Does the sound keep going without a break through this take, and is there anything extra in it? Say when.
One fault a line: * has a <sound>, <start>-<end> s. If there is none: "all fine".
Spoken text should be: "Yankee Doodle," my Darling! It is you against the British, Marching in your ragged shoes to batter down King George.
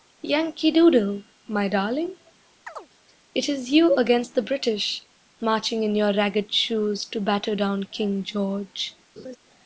* has a chirp, 2.7-2.9 s
* has a laugh, 9.2-9.4 s